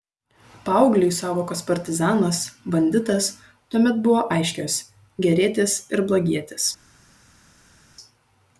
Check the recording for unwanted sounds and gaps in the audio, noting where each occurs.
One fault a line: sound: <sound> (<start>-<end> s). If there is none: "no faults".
no faults